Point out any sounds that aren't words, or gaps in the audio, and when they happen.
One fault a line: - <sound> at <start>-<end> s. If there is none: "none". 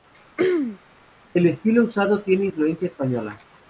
- throat clearing at 0.4-0.8 s